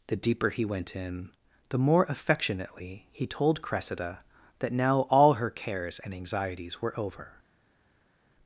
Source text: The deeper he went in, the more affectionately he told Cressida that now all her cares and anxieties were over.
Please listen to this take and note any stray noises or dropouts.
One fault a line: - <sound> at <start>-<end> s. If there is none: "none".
none